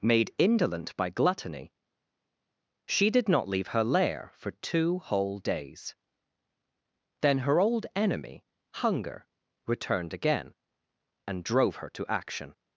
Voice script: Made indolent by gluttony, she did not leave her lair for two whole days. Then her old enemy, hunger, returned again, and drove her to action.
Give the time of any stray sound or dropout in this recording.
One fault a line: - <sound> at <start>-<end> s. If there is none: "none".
none